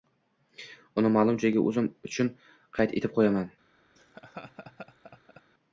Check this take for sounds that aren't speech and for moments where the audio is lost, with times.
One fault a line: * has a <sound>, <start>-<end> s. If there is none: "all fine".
* has a laugh, 3.9-5.4 s